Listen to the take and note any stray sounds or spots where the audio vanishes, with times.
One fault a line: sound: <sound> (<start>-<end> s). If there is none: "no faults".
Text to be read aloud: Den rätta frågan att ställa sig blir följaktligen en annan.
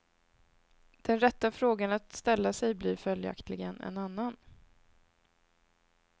no faults